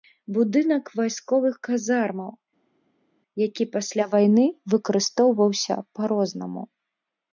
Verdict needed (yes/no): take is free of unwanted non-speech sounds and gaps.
yes